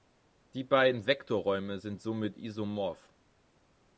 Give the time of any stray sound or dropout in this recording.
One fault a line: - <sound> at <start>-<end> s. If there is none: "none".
none